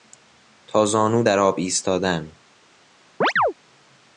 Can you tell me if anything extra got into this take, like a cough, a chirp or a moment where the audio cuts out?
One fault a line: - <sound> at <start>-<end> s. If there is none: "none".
- chirp at 3.2-3.5 s